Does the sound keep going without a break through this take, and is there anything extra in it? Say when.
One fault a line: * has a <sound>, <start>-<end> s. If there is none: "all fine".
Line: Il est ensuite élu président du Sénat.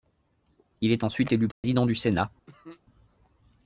* has a dropout, 1.5-1.6 s
* has a cough, 2.5-2.8 s